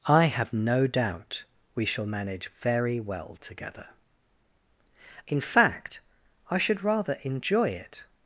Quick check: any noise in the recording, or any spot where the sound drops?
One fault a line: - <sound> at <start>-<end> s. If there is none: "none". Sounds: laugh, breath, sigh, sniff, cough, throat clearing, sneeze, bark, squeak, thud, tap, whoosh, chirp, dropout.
none